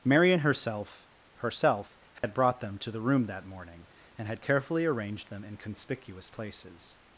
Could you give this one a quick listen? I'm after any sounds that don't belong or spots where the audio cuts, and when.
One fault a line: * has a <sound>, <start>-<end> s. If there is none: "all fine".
* has a dropout, 2.2-2.2 s